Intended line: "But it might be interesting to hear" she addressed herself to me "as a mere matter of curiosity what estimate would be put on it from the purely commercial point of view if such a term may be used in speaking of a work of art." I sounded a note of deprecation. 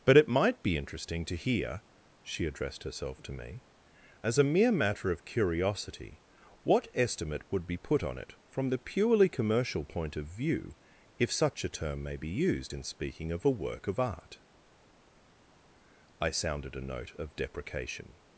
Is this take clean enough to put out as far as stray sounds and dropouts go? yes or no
yes